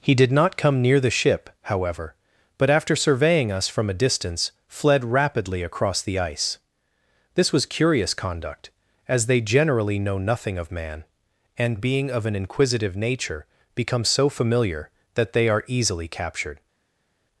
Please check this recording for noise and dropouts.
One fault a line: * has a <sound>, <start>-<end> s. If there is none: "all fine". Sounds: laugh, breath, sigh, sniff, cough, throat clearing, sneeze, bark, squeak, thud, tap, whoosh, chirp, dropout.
all fine